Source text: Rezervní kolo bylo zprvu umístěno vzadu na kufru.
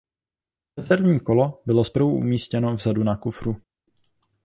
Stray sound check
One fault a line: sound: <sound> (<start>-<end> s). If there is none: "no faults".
no faults